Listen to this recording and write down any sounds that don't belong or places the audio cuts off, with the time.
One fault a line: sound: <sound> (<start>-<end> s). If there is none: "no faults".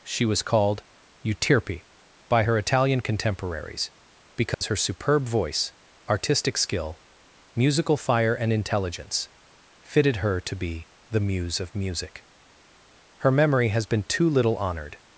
sound: dropout (4.5-4.6 s)